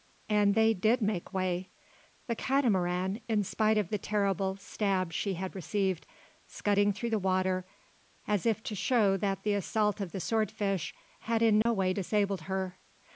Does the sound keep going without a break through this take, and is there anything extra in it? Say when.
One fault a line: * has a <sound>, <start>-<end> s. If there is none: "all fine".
* has a dropout, 11.6-11.7 s